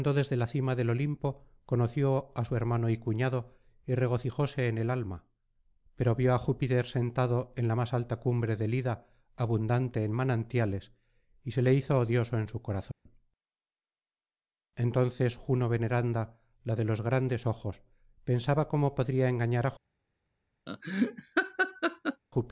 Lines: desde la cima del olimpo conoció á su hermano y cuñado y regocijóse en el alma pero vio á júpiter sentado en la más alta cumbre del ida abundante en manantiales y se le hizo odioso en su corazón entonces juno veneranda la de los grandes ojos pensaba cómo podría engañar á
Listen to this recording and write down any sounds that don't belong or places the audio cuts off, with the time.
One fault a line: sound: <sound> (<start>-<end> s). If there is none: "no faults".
sound: dropout (12.9-13.1 s)
sound: laugh (20.7-22.2 s)